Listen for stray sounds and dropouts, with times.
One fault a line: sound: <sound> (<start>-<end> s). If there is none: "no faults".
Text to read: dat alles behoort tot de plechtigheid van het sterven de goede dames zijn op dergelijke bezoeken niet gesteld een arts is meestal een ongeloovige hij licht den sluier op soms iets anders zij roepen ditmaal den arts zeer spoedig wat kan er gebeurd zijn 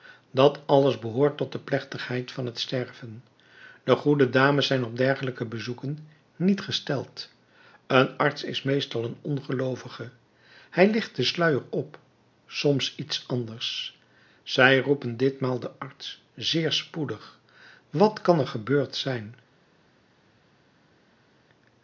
no faults